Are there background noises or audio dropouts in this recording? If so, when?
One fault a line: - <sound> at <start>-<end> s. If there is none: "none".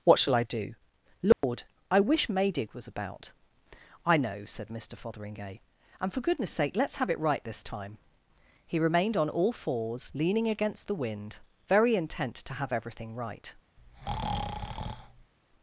- dropout at 1.3-1.4 s
- breath at 13.8-15.3 s